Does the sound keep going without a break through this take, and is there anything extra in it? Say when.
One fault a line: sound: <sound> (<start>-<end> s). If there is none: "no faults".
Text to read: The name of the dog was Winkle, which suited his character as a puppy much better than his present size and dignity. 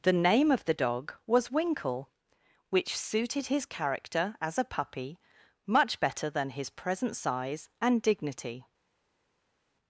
no faults